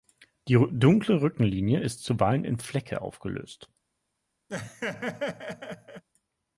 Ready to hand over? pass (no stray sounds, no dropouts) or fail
fail